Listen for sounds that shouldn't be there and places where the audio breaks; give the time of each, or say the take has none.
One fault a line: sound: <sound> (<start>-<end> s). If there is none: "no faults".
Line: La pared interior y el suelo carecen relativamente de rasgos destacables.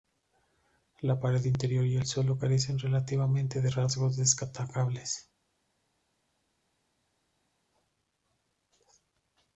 no faults